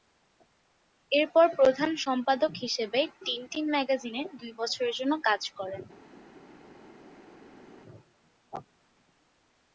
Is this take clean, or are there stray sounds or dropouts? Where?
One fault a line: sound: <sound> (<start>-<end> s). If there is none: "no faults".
no faults